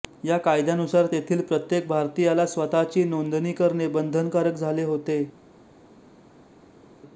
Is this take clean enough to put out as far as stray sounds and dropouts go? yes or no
yes